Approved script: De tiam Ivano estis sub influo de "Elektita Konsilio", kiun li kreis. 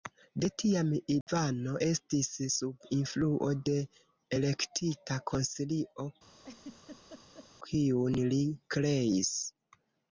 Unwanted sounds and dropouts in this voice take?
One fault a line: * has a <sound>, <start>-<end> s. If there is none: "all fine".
* has a dropout, 1.2-1.3 s
* has a laugh, 6.4-7.5 s